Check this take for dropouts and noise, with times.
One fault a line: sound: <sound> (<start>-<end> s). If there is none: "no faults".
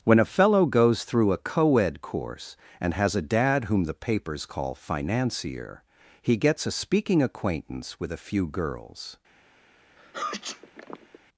sound: sneeze (10.0-11.2 s)